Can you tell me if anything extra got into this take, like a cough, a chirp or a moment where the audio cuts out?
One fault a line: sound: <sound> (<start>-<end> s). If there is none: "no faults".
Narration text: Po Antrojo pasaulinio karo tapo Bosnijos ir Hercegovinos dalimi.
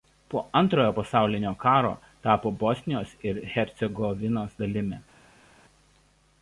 no faults